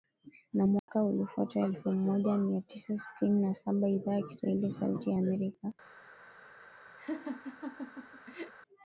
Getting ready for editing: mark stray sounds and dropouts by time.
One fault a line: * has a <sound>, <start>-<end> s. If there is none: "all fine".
* has a dropout, 0.8-0.9 s
* has a laugh, 7.0-8.5 s